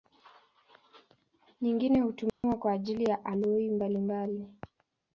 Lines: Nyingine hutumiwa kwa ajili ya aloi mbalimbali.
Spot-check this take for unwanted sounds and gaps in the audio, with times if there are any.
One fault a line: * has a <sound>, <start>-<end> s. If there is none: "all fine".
* has a dropout, 2.3-2.4 s